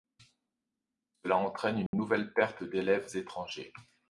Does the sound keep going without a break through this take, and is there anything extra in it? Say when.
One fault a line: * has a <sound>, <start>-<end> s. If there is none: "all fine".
* has a dropout, 1.9-1.9 s